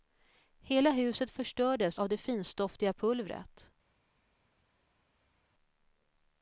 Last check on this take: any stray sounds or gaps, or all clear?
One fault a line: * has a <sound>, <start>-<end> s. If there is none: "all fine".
all fine